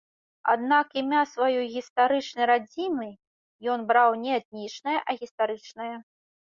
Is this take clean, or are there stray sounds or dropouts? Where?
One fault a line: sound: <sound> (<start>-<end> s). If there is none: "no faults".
no faults